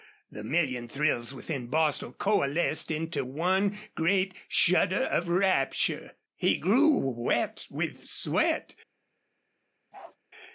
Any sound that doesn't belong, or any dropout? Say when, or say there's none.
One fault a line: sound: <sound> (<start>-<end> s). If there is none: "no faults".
sound: bark (9.9-10.2 s)